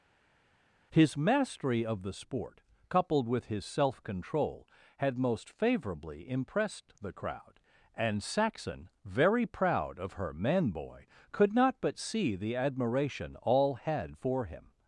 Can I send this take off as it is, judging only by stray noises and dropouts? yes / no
yes